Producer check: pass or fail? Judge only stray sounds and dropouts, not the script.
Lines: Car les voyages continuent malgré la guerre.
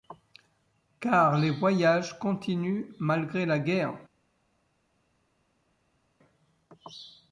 pass